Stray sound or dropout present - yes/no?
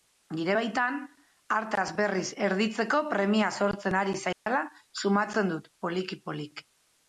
yes